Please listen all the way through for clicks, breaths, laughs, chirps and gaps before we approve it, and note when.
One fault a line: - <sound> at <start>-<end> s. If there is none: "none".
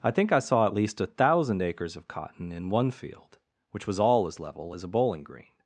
none